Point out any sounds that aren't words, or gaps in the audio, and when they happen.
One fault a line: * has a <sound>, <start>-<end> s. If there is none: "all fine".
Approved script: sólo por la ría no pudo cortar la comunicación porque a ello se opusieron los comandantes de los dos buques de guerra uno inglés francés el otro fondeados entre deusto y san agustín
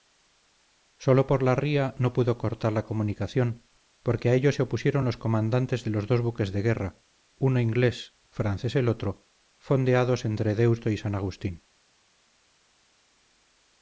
all fine